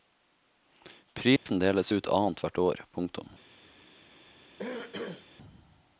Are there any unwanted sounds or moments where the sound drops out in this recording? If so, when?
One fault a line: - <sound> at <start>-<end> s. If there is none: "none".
- dropout at 1.4-1.5 s
- throat clearing at 4.6-5.3 s